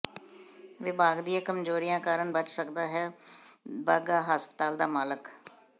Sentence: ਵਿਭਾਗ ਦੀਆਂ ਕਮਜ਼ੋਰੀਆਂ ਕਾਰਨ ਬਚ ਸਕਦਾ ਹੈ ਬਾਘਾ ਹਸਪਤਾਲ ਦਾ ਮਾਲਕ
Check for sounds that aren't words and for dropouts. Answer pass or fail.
pass